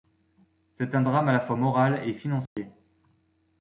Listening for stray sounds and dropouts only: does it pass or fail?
fail